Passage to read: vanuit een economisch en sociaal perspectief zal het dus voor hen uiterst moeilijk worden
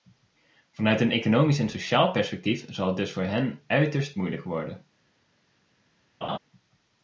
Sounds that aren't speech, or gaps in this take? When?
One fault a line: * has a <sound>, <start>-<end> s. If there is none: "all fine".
* has a laugh, 6.2-6.4 s